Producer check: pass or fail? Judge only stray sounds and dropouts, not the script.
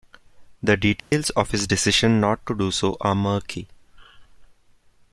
fail